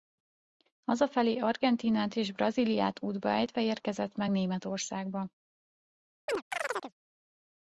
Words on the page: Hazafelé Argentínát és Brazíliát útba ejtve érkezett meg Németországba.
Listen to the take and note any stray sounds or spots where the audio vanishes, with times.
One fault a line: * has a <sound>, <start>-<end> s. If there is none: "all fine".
* has a chirp, 6.3-6.9 s